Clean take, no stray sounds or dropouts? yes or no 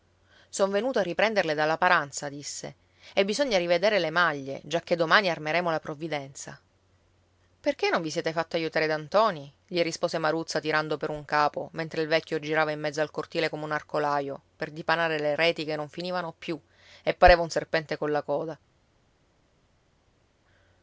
yes